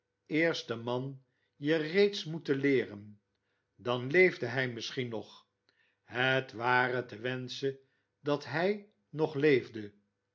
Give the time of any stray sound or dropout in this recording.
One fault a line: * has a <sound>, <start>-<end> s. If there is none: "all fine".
all fine